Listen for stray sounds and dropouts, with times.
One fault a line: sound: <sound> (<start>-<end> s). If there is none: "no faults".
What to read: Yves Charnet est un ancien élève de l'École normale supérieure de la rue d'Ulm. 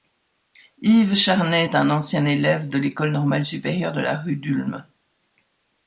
no faults